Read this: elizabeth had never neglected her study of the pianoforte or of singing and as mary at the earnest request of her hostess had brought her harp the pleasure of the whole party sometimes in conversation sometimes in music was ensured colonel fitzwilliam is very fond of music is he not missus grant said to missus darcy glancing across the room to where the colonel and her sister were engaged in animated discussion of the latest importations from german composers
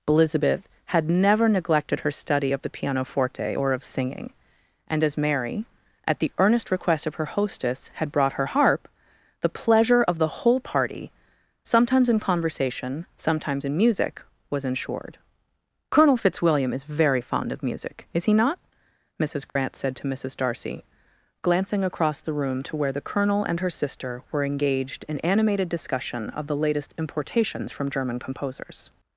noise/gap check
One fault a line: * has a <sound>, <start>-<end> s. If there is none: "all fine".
* has a dropout, 19.5-19.6 s